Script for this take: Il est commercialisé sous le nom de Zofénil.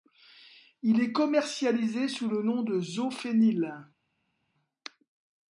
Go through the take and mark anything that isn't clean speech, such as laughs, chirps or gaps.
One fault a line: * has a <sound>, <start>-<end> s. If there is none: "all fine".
all fine